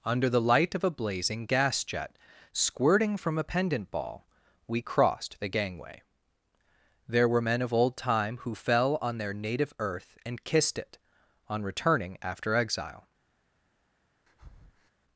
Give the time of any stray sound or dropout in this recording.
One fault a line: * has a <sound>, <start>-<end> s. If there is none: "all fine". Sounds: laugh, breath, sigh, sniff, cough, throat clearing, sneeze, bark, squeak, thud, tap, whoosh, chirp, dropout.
* has a breath, 14.3-14.9 s